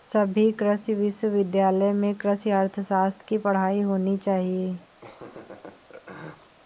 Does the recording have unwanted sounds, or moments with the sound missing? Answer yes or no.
yes